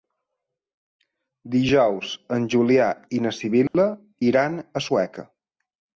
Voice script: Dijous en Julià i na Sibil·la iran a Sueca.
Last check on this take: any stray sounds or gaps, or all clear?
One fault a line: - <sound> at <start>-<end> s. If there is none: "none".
- dropout at 3.7-3.7 s